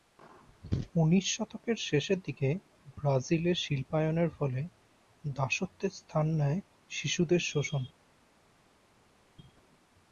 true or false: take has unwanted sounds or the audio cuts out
false